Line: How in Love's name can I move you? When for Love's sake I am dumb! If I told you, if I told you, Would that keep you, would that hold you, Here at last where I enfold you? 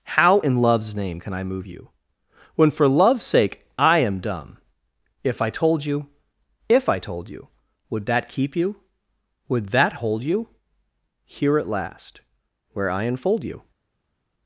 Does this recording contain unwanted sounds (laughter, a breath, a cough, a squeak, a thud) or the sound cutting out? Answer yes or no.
no